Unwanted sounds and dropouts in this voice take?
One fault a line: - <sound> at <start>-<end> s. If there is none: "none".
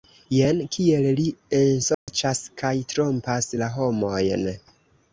- dropout at 1.9-2.1 s